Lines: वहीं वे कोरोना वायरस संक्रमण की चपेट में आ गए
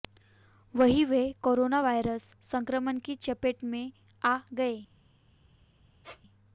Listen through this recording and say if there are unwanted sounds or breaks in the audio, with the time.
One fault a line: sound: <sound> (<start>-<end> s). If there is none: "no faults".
sound: squeak (6.0-6.2 s)